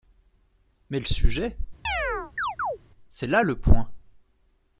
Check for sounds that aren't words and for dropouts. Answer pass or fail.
fail